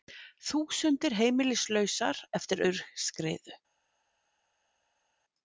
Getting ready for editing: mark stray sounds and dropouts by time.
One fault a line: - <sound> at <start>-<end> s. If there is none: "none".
none